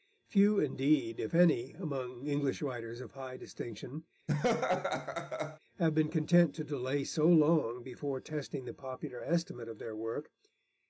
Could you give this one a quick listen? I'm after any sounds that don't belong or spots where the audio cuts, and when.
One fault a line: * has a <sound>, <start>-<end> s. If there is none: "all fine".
* has a laugh, 4.3-5.6 s